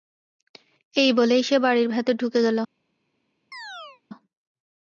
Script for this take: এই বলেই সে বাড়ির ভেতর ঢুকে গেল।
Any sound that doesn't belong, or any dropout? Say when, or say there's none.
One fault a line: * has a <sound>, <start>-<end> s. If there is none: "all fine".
* has a chirp, 3.5-4.0 s